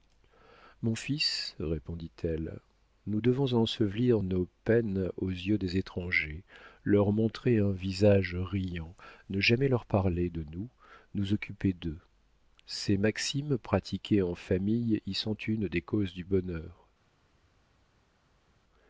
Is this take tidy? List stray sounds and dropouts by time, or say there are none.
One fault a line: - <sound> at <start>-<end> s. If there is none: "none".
none